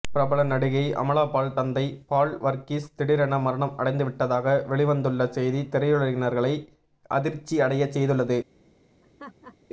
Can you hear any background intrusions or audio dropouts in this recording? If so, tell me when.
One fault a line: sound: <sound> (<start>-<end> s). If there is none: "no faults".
sound: laugh (9.0-9.6 s)